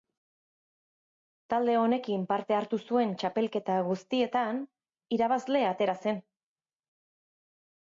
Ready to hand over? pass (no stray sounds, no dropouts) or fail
pass